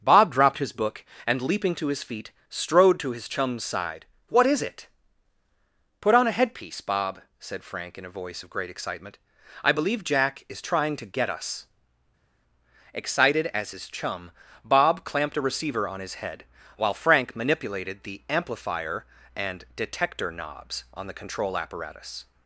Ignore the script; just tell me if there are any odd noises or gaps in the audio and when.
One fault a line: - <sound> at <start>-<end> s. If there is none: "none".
none